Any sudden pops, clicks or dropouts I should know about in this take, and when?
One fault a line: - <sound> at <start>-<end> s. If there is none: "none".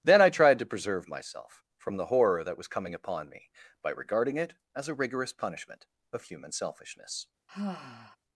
- sigh at 7.5-8.2 s